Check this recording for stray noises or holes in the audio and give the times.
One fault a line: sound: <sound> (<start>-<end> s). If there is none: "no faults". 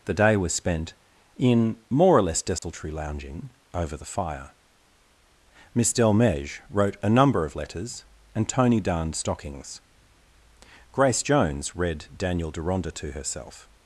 sound: dropout (2.6-2.6 s)